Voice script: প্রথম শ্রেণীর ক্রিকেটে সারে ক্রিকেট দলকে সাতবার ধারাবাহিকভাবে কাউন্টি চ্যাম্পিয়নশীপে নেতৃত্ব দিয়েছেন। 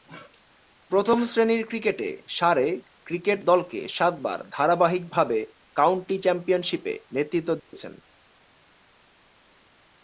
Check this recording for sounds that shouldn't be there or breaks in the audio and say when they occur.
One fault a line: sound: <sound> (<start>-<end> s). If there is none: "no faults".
sound: dropout (7.6-7.7 s)